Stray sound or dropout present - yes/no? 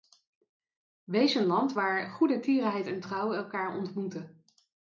no